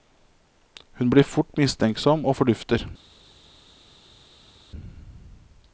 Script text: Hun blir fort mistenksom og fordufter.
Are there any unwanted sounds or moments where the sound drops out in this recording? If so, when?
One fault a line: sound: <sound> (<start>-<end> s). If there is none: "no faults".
no faults